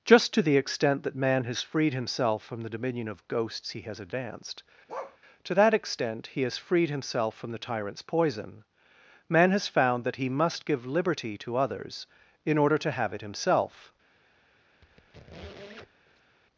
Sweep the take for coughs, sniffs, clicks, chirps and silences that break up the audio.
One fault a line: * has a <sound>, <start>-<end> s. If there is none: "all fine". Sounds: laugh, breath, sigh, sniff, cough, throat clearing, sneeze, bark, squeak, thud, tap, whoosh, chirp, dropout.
* has a bark, 4.9-5.2 s
* has a squeak, 14.8-16.4 s